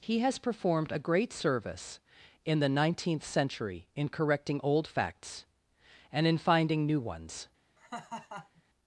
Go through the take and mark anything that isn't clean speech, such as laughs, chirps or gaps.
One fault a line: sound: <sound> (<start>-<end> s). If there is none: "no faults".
sound: laugh (7.8-8.6 s)